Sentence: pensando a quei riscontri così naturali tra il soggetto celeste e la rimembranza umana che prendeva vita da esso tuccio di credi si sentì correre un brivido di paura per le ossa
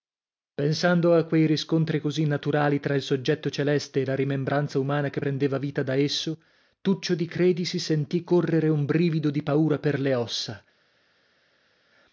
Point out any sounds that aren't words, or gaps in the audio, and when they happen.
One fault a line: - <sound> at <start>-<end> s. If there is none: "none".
none